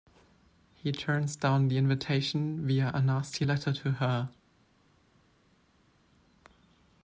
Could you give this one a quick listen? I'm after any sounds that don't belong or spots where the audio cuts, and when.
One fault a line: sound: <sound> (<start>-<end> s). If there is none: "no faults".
no faults